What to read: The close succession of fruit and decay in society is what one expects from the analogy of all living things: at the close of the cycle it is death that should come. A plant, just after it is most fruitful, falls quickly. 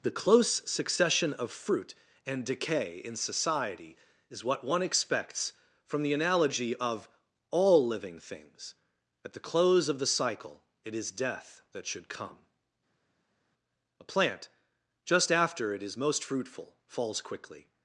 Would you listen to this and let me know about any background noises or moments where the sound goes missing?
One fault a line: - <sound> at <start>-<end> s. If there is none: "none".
none